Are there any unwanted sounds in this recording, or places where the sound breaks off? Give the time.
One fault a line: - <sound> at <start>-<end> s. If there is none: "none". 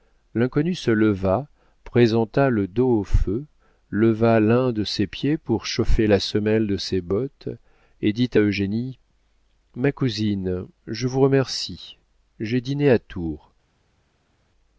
none